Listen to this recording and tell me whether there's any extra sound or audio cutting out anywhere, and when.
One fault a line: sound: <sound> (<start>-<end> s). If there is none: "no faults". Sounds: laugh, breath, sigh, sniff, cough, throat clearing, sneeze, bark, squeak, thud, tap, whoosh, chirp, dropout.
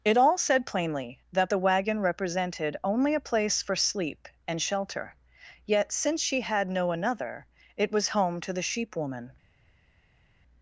no faults